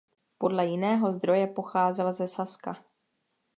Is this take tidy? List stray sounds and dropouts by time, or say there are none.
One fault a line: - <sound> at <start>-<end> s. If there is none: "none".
none